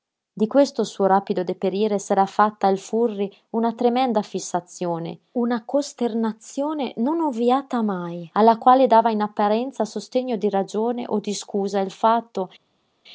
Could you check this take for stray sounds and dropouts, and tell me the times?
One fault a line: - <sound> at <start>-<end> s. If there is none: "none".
none